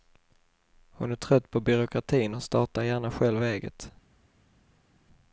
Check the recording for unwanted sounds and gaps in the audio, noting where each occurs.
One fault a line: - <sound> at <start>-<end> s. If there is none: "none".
none